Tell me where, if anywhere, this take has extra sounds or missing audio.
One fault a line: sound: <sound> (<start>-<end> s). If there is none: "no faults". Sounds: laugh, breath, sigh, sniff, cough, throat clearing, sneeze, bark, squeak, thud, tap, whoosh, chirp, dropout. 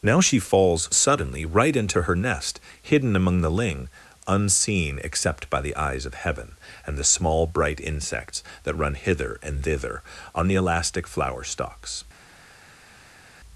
no faults